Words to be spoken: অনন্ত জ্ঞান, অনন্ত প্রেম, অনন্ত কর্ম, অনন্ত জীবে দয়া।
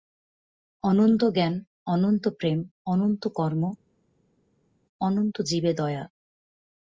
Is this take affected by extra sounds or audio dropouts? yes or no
no